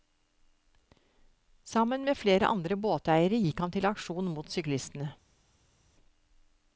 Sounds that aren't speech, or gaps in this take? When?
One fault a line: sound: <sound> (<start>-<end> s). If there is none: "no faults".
no faults